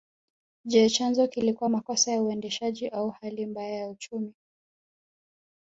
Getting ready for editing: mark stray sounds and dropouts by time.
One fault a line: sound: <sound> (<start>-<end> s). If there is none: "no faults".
no faults